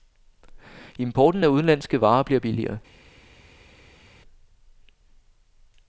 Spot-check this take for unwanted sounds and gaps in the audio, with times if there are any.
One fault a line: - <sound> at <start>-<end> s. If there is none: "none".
none